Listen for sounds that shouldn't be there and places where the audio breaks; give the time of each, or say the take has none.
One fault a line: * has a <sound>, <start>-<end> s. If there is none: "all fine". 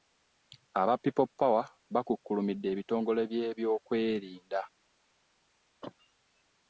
* has a cough, 5.8-5.9 s